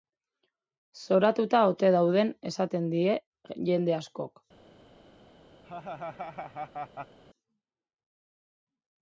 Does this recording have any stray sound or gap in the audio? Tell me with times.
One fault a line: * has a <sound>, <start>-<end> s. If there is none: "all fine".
* has a laugh, 5.6-7.2 s